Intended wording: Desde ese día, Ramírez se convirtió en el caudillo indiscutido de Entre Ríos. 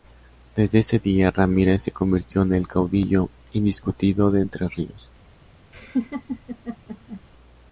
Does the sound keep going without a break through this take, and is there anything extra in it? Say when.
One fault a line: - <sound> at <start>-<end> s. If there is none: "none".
- laugh at 5.7-7.2 s